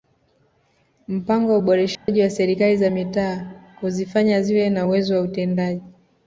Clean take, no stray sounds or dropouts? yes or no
no